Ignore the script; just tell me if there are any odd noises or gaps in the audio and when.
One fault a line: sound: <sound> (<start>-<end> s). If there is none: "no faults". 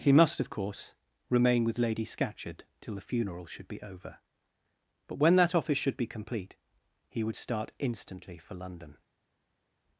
no faults